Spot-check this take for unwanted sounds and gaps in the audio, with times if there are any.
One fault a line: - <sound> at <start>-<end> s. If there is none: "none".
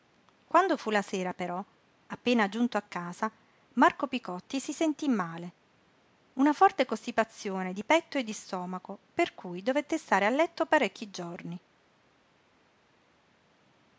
none